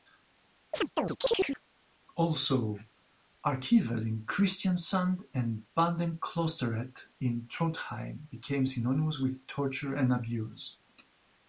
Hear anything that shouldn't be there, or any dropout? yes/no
yes